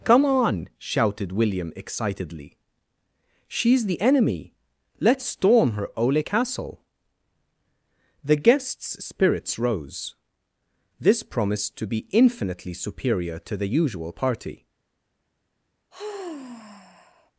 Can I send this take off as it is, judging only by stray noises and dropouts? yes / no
no